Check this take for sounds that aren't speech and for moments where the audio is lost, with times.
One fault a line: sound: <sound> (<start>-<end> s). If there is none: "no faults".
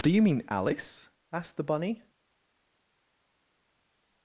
no faults